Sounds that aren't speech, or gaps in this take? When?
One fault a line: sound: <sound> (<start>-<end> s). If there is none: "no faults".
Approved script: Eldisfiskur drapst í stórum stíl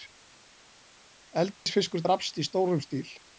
sound: dropout (1.5-1.7 s)